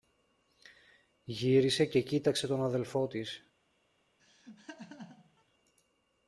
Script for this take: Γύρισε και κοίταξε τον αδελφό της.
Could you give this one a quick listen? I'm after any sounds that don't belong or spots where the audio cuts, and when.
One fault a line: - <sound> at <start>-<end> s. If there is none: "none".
- laugh at 4.2-5.4 s